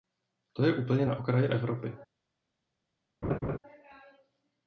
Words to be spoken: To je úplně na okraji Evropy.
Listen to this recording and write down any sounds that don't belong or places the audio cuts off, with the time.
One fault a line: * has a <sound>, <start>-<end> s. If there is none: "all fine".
* has a laugh, 3.2-3.6 s